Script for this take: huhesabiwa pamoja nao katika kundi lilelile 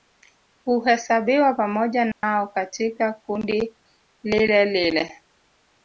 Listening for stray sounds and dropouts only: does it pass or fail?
fail